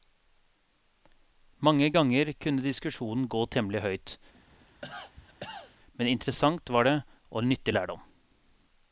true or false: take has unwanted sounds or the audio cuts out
true